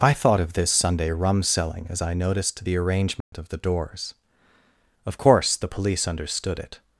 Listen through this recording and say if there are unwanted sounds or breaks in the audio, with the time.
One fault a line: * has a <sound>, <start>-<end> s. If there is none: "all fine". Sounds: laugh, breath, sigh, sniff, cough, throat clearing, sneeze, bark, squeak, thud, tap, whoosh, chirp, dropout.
* has a dropout, 3.2-3.3 s